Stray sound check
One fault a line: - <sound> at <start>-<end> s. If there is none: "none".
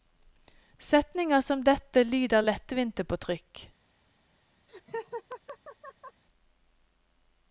- laugh at 4.7-6.2 s